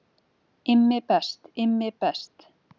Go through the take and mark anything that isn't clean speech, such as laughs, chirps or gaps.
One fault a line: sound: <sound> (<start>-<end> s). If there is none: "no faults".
no faults